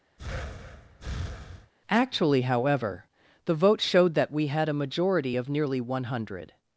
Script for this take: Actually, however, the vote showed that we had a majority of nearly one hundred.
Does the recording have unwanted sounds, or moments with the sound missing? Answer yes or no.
yes